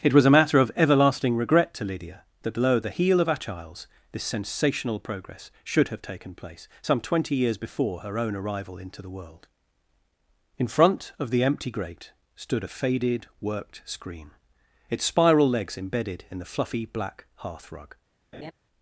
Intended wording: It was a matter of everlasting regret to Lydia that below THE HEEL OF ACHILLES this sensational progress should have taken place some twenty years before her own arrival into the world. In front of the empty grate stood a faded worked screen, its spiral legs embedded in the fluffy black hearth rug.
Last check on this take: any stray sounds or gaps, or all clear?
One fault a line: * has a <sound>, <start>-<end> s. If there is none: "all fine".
* has a laugh, 18.3-18.5 s